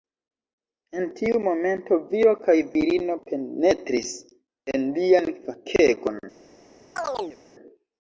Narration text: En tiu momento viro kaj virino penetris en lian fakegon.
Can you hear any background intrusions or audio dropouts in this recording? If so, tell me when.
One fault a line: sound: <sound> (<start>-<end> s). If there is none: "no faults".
sound: chirp (7.0-7.4 s)